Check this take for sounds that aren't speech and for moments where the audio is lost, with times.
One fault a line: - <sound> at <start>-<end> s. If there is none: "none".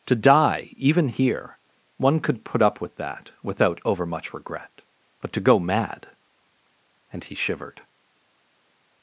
none